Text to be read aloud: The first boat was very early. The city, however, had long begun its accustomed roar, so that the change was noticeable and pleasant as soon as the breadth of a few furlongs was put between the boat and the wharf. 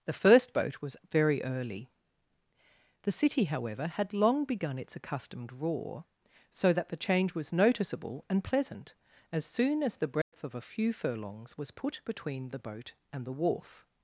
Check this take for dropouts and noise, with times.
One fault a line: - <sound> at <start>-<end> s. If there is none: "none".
- dropout at 10.2-10.3 s